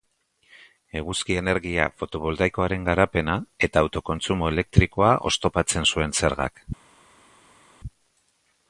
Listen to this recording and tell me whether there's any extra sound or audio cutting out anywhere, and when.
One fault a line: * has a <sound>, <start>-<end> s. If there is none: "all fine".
all fine